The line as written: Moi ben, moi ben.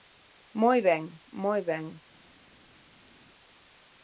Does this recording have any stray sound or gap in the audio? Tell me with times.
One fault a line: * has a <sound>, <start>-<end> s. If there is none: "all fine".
all fine